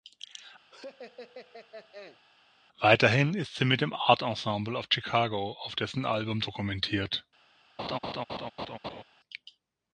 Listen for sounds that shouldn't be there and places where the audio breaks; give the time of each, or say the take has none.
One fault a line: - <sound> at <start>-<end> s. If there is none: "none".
- laugh at 0.7-2.2 s
- laugh at 7.8-9.0 s